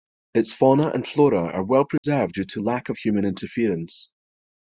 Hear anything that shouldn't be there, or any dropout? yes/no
yes